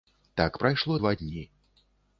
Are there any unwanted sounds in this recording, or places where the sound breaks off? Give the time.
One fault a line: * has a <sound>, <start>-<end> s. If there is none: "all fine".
all fine